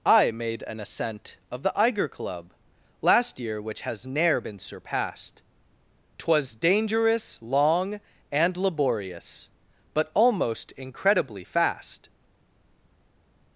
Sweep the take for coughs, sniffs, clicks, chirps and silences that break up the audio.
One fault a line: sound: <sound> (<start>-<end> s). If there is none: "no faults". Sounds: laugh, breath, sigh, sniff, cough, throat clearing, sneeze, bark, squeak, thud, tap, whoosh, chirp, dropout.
no faults